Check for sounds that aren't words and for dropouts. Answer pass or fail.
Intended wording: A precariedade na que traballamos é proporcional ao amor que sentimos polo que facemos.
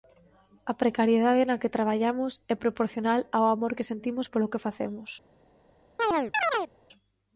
fail